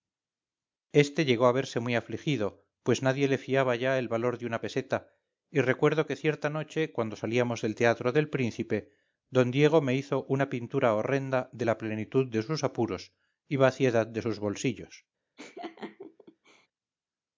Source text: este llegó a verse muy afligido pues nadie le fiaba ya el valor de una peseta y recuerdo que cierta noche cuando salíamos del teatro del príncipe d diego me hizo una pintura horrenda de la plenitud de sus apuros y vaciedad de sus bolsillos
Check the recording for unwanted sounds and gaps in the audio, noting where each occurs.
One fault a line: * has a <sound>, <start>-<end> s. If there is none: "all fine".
* has a laugh, 15.4-16.7 s